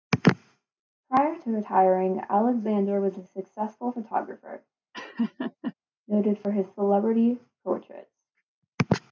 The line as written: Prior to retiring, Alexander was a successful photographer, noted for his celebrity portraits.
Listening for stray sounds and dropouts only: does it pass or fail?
fail